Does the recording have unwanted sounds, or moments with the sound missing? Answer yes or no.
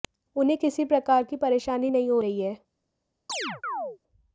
yes